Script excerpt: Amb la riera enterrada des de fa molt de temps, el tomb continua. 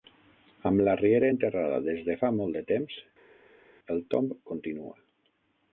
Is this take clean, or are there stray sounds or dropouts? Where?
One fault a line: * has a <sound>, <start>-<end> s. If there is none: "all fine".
all fine